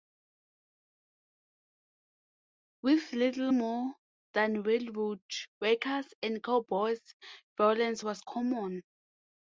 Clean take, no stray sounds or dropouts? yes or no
yes